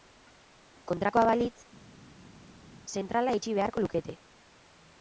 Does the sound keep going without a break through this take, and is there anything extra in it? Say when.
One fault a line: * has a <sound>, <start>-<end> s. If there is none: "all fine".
all fine